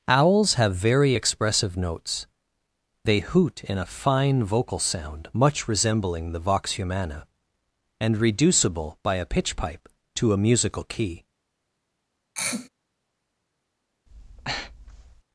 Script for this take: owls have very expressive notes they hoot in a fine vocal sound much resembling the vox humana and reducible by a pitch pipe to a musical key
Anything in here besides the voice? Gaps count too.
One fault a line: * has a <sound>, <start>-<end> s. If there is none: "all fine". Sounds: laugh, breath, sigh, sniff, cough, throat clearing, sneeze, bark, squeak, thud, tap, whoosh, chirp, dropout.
* has a throat clearing, 12.4-12.7 s
* has a breath, 14.1-15.2 s